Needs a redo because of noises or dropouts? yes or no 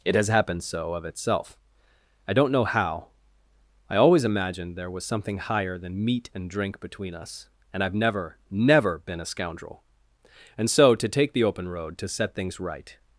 no